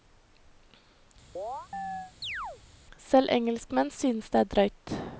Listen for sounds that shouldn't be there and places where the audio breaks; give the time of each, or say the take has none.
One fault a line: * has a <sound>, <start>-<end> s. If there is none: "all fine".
* has a chirp, 1.4-2.6 s